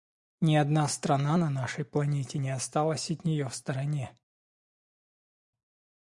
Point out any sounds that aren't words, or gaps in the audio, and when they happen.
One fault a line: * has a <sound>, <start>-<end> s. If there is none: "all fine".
all fine